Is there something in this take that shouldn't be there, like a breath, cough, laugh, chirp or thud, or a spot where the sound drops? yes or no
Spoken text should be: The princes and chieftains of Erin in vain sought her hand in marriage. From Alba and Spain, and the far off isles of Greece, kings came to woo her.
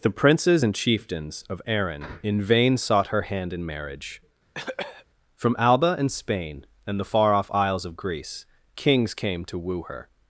yes